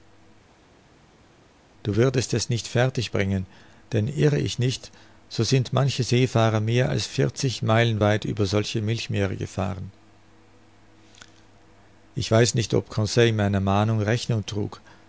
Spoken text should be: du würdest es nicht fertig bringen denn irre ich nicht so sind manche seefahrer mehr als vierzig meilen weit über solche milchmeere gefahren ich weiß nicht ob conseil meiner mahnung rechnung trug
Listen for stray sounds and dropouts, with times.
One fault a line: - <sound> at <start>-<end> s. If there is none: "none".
none